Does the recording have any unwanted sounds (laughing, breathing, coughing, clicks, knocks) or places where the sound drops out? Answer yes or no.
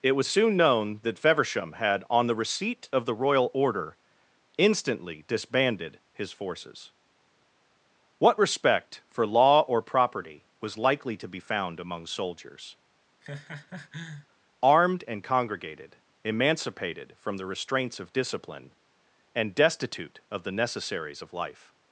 yes